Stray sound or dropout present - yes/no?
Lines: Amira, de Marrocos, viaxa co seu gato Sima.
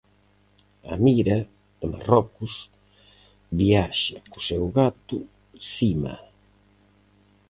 no